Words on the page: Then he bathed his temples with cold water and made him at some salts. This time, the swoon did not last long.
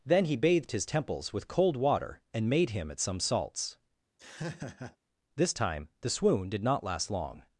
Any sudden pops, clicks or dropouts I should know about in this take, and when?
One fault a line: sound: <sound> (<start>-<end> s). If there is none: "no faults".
sound: laugh (4.2-5.0 s)